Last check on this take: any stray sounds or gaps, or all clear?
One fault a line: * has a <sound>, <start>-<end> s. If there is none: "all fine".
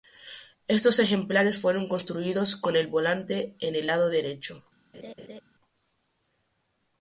* has a laugh, 4.9-5.4 s